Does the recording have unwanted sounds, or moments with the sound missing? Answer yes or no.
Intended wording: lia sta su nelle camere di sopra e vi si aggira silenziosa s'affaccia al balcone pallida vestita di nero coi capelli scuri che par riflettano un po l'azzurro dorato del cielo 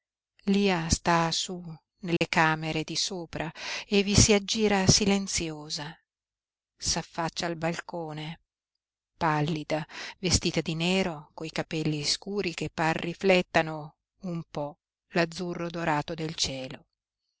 yes